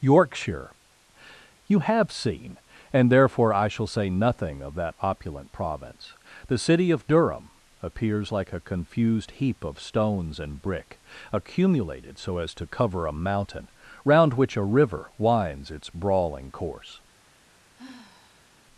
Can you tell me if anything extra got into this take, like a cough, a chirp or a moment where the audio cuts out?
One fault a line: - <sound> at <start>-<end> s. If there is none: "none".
- sigh at 17.8-18.6 s